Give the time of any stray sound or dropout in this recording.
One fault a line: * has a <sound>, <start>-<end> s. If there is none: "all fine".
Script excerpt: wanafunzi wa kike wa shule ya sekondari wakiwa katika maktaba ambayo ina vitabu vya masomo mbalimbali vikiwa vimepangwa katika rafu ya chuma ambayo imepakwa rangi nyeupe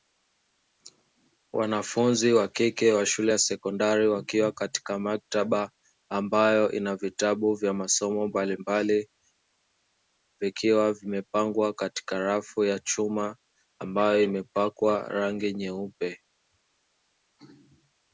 all fine